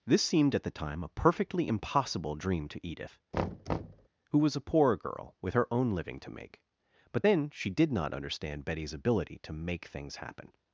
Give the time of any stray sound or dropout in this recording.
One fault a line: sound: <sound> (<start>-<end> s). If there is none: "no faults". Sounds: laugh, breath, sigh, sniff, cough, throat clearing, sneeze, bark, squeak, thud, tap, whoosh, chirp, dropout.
sound: thud (3.3-4.1 s)